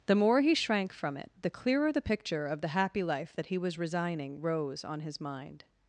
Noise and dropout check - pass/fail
pass